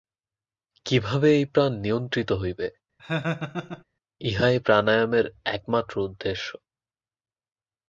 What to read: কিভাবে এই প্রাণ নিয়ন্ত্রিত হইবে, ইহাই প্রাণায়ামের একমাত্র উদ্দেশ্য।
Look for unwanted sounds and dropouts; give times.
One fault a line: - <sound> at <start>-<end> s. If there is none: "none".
- laugh at 3.0-3.8 s